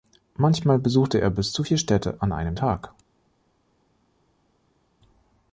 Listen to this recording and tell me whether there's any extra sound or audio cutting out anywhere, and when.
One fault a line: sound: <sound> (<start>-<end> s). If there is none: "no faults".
no faults